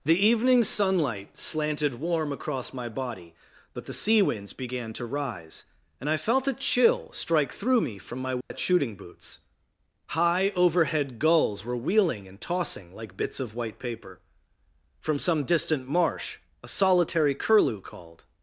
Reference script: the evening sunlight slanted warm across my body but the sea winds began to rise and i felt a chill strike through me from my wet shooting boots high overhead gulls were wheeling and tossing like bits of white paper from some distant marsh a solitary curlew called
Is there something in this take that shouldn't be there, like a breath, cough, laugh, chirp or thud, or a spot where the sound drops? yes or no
yes